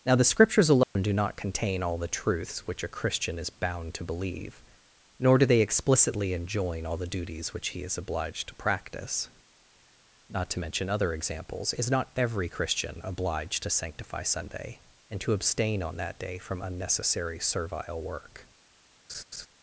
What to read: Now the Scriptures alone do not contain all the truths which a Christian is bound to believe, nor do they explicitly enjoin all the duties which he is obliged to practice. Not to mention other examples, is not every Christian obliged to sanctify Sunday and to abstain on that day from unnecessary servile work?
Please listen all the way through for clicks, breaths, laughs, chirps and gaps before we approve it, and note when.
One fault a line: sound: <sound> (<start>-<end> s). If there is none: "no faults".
sound: dropout (0.8-1.0 s)
sound: laugh (19.1-19.5 s)